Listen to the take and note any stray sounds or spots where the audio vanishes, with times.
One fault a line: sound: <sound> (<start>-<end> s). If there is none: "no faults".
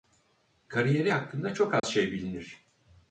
sound: dropout (1.8-1.8 s)